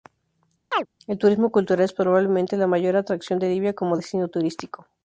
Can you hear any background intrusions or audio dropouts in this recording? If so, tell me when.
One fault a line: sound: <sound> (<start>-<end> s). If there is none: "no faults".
sound: chirp (0.7-0.9 s)